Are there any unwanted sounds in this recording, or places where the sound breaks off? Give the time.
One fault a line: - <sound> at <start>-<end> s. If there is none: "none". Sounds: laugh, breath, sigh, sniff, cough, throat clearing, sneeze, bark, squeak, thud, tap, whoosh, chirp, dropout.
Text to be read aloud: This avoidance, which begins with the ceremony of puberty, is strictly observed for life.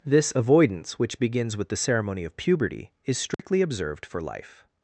- dropout at 3.3-3.4 s